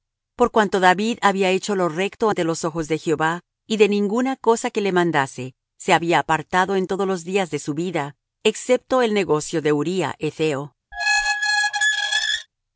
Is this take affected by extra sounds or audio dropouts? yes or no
yes